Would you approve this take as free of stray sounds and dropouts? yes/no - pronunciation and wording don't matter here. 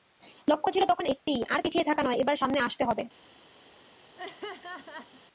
no